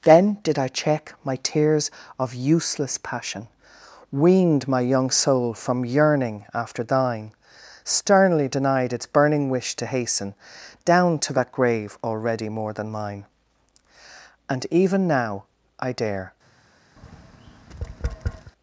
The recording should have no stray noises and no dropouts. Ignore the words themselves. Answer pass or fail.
fail